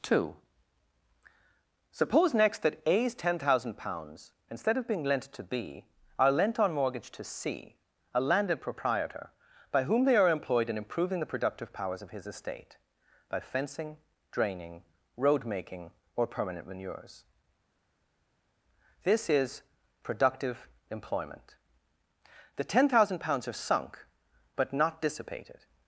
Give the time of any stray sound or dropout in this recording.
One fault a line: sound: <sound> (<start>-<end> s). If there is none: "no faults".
no faults